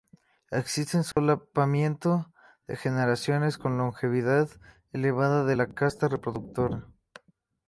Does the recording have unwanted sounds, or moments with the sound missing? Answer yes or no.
yes